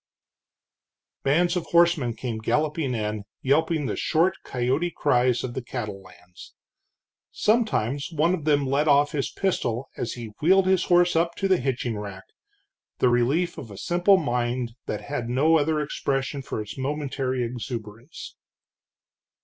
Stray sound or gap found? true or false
false